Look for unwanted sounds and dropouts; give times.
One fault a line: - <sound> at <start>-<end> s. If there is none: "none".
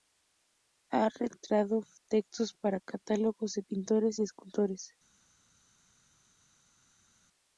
none